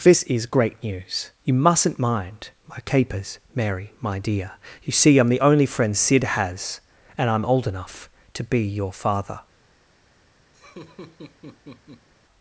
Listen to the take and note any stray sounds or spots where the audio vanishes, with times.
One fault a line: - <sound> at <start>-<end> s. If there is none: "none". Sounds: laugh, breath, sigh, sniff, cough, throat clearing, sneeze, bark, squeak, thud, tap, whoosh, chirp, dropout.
- laugh at 10.5-12.1 s